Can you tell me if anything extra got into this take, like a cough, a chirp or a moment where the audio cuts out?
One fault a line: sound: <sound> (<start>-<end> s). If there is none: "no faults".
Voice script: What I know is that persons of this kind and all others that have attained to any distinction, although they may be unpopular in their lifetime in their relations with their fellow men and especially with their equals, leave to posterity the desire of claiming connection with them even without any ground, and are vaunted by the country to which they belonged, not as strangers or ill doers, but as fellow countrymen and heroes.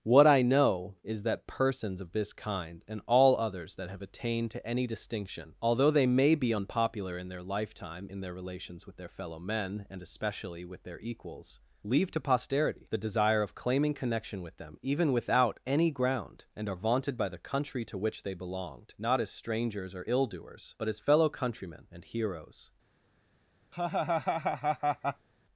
sound: laugh (23.7-25.3 s)